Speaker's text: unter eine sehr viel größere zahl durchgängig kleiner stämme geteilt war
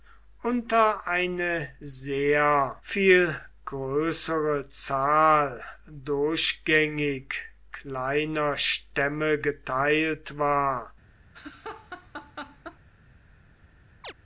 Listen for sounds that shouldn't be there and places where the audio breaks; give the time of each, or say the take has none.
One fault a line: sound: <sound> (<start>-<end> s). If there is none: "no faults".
sound: laugh (11.3-12.8 s)
sound: chirp (14.0-14.1 s)